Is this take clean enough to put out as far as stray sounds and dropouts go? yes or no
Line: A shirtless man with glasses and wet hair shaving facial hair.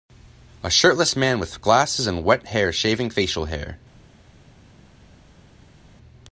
yes